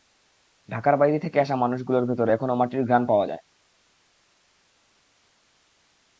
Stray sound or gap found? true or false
false